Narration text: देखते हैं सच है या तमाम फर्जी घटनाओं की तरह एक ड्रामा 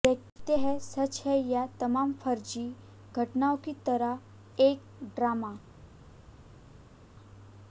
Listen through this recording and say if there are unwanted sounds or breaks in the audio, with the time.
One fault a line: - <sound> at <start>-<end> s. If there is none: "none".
none